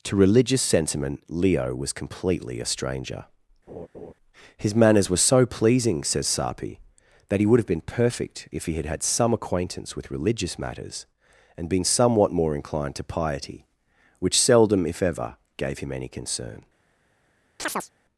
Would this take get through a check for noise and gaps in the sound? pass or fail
fail